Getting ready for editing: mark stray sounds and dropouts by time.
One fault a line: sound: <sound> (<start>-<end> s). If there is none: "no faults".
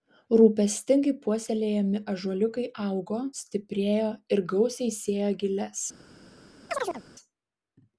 sound: chirp (6.7-7.0 s)